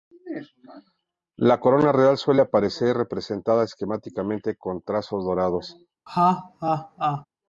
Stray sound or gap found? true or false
true